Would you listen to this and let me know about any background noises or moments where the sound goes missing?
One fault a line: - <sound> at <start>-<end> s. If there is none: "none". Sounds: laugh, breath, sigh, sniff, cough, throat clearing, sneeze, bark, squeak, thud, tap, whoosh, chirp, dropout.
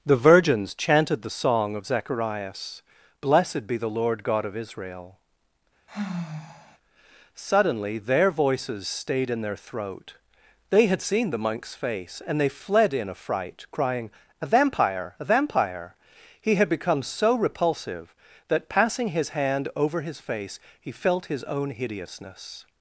- sigh at 5.9-6.8 s